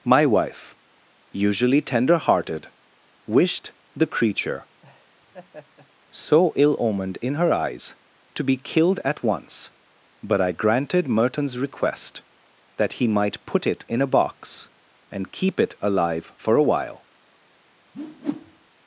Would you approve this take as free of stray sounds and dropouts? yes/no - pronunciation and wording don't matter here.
no